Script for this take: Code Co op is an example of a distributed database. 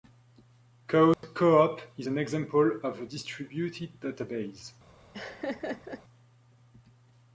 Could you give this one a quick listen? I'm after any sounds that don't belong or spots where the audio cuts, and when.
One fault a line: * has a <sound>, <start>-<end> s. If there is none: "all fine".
* has a dropout, 1.1-1.2 s
* has a laugh, 5.1-6.0 s